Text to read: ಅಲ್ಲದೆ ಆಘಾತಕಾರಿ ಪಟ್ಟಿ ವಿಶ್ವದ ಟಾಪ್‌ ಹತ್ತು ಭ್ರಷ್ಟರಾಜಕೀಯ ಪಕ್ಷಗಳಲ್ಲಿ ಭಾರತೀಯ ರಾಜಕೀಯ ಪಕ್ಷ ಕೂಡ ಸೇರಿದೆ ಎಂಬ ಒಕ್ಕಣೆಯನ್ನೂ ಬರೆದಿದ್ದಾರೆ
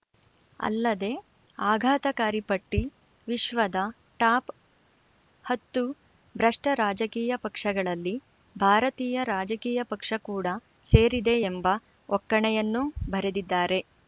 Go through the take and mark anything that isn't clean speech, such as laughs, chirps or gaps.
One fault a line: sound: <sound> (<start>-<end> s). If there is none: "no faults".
no faults